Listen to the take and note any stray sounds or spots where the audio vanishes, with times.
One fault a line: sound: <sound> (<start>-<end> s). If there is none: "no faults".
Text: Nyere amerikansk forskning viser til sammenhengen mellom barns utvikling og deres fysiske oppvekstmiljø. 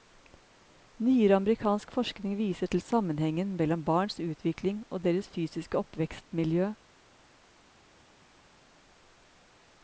no faults